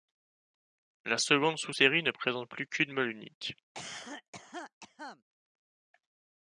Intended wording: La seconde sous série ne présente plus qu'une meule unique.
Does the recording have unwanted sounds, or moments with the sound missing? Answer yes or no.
yes